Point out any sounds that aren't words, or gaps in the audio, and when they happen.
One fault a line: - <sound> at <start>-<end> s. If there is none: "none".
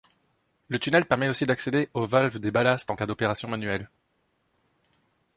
none